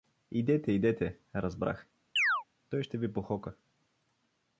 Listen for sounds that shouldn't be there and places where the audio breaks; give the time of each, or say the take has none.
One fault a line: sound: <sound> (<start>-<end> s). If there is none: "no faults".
sound: chirp (2.2-2.4 s)